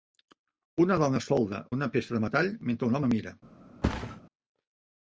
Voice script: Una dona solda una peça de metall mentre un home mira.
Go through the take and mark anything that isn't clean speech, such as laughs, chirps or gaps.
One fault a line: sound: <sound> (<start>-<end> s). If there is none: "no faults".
sound: thud (3.8-4.2 s)